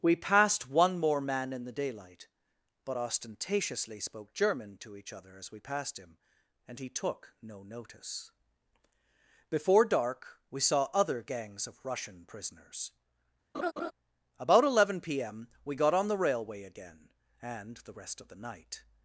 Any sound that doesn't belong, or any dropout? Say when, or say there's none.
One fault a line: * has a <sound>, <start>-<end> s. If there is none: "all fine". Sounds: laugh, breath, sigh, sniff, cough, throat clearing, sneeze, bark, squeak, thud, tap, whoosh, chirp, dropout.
* has a laugh, 13.5-13.9 s